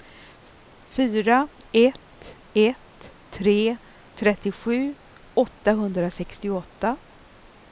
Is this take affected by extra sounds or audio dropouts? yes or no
no